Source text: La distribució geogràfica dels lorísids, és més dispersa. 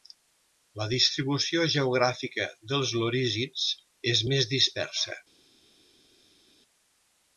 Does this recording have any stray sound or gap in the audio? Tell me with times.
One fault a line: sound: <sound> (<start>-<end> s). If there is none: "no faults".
no faults